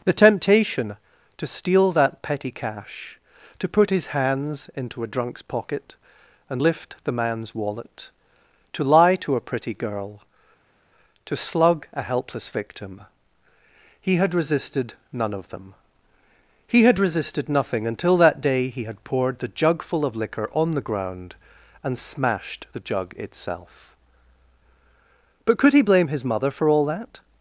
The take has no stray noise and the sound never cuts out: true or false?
true